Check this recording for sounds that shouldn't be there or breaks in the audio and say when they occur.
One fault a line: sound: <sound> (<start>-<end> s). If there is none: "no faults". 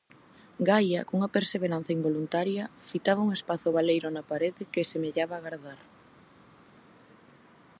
no faults